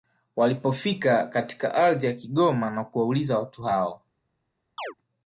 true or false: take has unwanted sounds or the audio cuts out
true